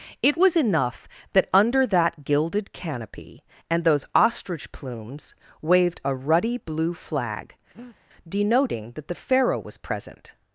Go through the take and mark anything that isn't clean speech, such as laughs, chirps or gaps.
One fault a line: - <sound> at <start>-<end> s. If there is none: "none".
- breath at 7.7-8.0 s